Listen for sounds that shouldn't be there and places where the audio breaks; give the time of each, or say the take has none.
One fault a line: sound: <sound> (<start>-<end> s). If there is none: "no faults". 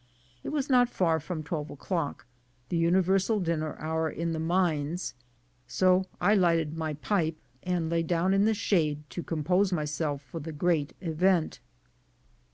no faults